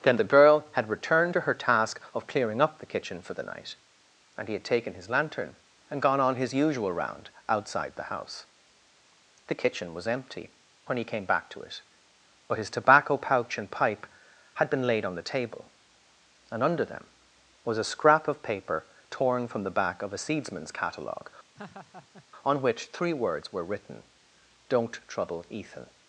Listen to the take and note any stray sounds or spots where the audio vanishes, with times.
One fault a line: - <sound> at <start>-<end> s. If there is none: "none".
- laugh at 21.5-22.3 s